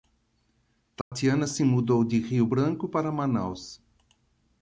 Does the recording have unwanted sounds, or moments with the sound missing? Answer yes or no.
yes